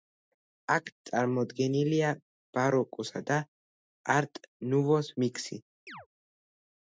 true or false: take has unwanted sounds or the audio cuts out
true